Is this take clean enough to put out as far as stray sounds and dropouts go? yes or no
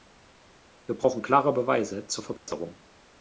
no